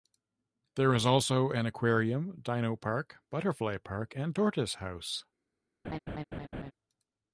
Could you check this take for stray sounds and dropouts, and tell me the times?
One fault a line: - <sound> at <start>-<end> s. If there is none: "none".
- laugh at 5.8-6.7 s